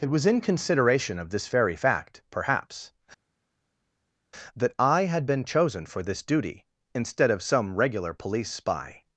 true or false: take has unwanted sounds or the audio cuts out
false